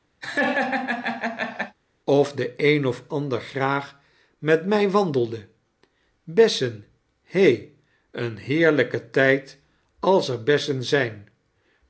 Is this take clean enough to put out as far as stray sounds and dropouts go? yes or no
no